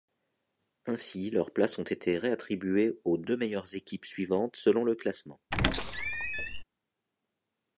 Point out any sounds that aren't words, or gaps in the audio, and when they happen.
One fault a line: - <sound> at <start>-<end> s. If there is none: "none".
- squeak at 5.5-6.6 s